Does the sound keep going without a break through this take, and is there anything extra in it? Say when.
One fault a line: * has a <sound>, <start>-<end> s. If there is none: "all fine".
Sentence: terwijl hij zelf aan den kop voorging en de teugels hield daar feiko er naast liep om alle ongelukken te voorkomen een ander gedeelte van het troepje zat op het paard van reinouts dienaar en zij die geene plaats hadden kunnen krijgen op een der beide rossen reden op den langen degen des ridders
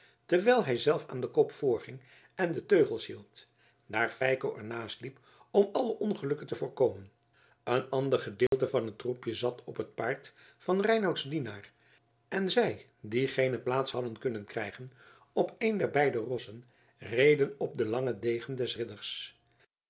* has a dropout, 8.5-8.5 s